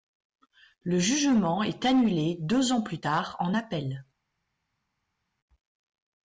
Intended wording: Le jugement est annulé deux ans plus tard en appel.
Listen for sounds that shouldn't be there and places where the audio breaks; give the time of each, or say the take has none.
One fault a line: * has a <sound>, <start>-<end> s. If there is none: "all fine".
all fine